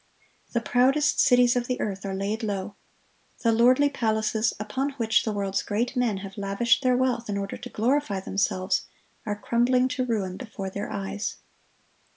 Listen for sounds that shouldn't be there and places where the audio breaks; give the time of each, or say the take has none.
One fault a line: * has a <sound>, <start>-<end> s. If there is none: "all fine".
all fine